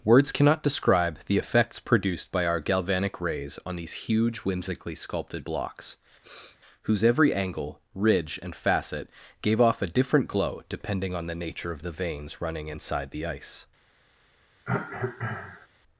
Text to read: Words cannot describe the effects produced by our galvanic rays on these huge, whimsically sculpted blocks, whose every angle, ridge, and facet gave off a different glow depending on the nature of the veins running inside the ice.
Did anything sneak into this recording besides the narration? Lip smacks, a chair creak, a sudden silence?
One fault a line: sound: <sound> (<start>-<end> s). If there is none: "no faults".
sound: sniff (6.2-6.6 s)
sound: cough (14.6-15.7 s)